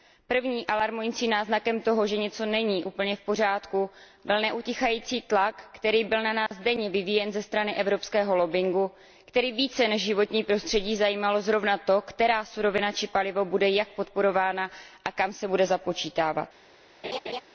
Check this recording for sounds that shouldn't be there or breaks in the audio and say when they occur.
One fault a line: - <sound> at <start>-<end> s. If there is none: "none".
- dropout at 6.5-6.5 s
- laugh at 17.0-17.4 s